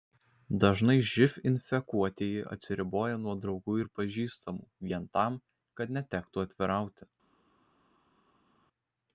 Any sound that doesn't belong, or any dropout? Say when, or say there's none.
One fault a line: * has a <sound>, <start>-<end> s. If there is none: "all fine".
all fine